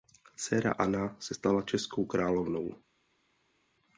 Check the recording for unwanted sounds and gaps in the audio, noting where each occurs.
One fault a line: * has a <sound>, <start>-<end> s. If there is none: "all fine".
all fine